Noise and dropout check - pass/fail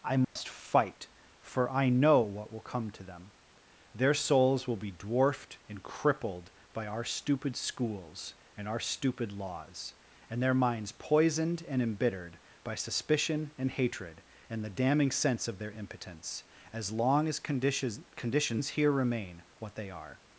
fail